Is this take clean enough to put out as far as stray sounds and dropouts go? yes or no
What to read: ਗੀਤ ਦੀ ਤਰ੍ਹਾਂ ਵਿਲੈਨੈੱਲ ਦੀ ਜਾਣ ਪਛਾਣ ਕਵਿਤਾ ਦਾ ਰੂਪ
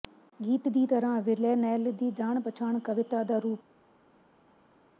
yes